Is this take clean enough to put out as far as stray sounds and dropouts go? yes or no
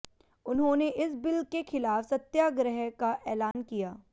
no